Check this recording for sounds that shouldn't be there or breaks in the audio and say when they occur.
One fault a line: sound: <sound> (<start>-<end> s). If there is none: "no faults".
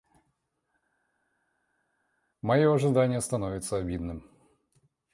no faults